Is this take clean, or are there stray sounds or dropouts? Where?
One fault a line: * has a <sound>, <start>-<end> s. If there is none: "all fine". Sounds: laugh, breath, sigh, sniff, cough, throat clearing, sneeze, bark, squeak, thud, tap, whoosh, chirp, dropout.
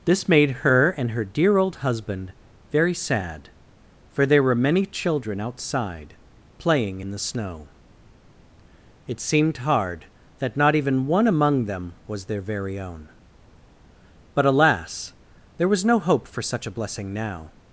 all fine